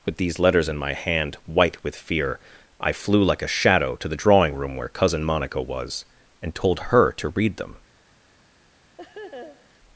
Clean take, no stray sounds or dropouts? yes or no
no